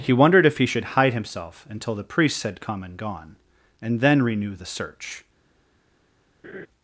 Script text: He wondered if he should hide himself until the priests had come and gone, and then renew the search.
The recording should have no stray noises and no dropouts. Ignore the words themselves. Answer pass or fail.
fail